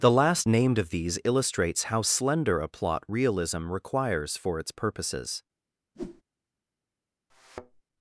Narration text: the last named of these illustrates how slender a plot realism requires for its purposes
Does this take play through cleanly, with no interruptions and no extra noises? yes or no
no